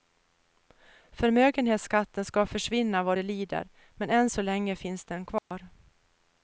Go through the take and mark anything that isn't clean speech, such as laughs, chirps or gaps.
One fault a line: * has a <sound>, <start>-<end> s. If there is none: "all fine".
* has a dropout, 5.4-5.5 s